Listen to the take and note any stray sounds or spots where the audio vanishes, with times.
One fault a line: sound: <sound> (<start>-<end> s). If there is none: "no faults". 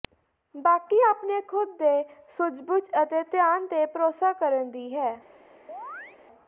sound: chirp (5.7-6.2 s)